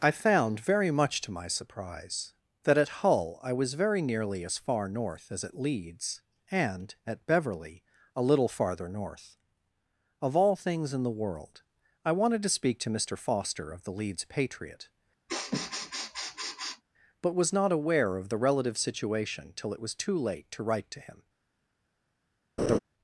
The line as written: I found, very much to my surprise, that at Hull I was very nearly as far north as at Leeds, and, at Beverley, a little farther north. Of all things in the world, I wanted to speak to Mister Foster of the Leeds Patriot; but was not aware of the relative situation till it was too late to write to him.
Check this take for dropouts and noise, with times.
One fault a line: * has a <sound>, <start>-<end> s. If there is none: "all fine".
* has a sniff, 15.3-16.8 s
* has a laugh, 22.6-22.8 s